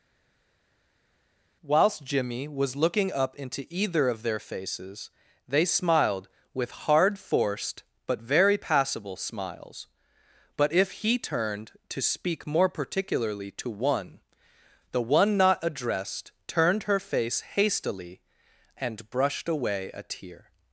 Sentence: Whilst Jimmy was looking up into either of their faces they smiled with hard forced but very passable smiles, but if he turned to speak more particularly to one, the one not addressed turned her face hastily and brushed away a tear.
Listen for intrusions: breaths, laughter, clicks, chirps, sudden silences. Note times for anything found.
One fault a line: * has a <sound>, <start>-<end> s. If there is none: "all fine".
all fine